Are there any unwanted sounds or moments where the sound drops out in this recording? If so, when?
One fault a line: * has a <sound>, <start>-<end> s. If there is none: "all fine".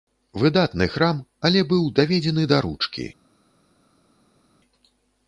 all fine